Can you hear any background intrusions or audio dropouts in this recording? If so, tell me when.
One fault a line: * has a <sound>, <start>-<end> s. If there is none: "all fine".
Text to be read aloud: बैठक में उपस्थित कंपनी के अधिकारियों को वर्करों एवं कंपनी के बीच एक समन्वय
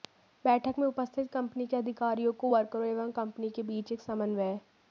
all fine